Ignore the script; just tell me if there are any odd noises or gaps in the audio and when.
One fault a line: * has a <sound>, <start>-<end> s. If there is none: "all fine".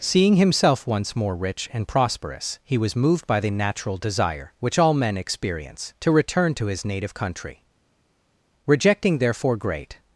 all fine